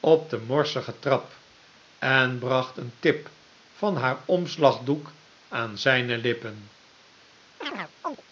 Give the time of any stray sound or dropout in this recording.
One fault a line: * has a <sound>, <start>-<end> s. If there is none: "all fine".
* has a chirp, 7.6-8.2 s